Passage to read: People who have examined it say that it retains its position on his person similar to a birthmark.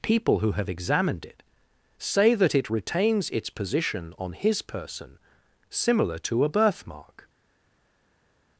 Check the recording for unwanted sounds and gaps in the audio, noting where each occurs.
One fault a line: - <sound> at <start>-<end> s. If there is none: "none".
none